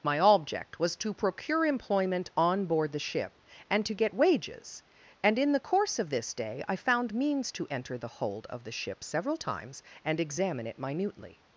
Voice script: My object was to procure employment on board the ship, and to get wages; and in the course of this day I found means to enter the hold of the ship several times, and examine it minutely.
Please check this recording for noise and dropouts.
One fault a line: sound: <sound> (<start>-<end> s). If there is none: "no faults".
no faults